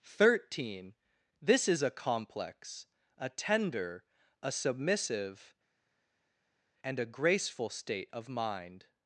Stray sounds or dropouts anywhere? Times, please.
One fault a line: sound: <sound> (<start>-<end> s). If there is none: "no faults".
no faults